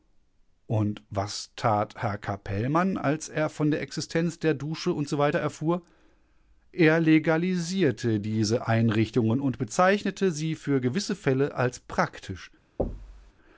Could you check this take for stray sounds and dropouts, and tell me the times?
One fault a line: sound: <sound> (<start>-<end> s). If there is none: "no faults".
sound: thud (12.8-13.3 s)